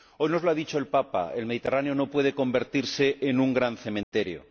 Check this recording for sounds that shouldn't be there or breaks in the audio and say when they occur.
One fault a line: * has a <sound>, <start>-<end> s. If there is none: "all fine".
* has a dropout, 4.0-4.1 s